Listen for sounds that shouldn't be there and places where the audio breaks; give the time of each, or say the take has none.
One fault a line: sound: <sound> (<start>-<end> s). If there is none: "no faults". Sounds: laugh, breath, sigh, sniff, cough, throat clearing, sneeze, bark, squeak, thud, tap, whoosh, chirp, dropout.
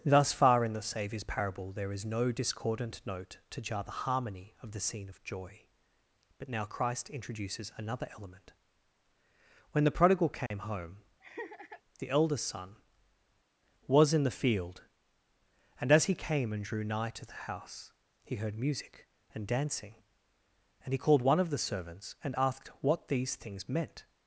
sound: dropout (10.5-10.5 s)
sound: laugh (11.2-11.8 s)